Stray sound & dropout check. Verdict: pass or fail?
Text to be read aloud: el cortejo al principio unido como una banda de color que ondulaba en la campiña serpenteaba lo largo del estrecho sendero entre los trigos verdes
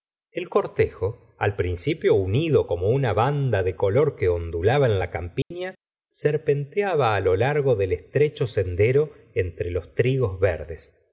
fail